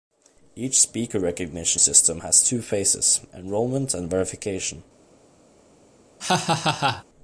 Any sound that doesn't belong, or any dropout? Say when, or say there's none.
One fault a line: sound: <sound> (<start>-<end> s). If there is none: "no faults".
sound: laugh (6.2-7.0 s)